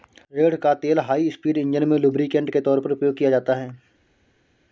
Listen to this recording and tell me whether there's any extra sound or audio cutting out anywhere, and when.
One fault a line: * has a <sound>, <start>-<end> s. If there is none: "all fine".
all fine